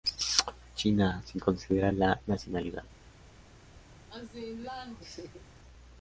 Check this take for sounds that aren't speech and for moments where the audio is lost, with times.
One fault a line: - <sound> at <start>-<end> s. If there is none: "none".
- laugh at 4.1-5.4 s